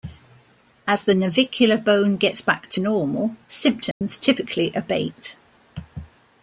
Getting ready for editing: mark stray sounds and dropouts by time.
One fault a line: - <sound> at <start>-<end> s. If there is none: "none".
- dropout at 3.9-4.0 s